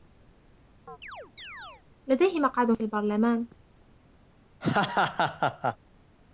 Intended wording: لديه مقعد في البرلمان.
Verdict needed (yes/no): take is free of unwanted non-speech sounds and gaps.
no